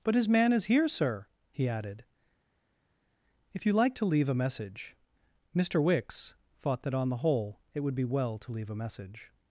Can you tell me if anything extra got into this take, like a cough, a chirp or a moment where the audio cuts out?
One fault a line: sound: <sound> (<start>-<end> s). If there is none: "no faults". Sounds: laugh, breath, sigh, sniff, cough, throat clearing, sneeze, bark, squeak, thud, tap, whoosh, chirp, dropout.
no faults